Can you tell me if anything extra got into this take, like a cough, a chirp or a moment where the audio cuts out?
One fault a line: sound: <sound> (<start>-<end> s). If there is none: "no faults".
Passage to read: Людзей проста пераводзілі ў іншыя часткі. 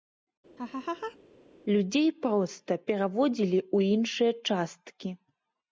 sound: laugh (0.6-1.2 s)